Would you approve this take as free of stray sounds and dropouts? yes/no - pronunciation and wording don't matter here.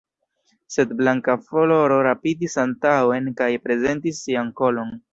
yes